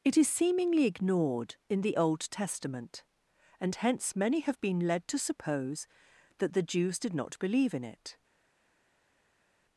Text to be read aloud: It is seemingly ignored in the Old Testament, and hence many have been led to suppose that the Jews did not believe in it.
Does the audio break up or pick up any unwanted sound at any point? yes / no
no